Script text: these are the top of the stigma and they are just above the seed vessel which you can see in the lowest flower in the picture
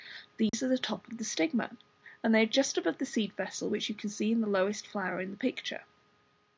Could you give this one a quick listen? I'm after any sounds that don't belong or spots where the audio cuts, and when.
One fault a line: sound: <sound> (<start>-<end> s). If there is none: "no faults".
sound: dropout (0.5-0.5 s)